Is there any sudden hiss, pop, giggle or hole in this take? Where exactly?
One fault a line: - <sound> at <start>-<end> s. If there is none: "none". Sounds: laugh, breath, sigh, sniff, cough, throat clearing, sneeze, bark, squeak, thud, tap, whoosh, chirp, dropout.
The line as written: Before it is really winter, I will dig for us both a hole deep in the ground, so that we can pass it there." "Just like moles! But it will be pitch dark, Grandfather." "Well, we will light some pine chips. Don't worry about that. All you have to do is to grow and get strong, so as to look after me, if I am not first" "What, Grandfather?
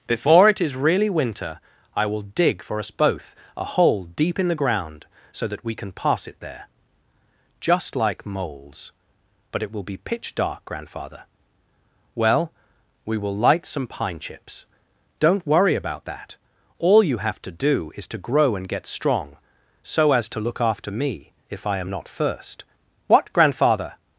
none